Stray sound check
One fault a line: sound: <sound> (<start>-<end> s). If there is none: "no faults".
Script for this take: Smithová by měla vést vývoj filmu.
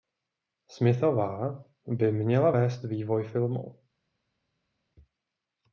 no faults